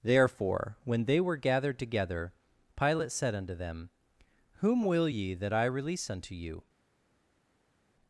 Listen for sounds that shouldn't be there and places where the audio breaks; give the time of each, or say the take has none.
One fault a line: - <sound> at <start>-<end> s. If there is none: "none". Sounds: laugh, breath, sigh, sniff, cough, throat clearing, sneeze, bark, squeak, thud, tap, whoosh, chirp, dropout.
none